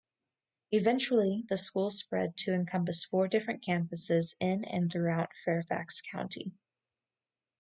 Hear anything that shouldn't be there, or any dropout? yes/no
no